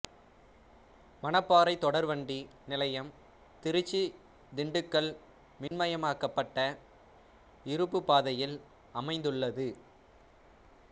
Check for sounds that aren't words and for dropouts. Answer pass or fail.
fail